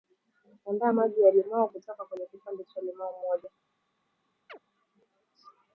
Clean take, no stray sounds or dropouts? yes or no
no